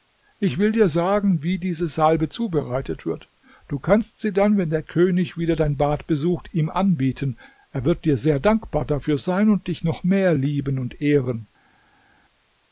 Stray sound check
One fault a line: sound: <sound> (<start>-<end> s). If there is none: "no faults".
no faults